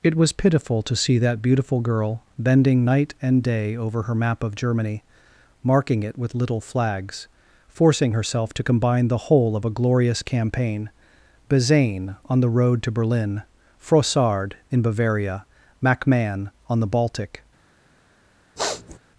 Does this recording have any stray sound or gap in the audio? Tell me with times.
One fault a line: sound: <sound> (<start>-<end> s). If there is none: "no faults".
sound: sniff (18.6-19.0 s)